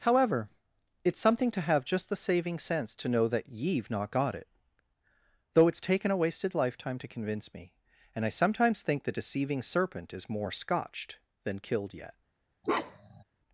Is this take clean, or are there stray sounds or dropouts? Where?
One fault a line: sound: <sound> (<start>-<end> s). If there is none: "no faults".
sound: bark (12.6-13.2 s)